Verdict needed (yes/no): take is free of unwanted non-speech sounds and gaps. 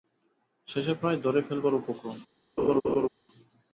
no